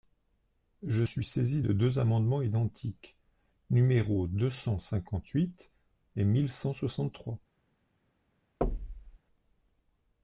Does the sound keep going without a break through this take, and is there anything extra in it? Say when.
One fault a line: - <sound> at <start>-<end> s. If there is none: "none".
- thud at 8.6-9.2 s